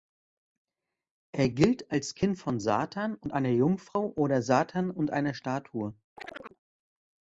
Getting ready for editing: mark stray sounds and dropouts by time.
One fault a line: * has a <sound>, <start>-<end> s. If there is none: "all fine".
* has a chirp, 6.2-6.6 s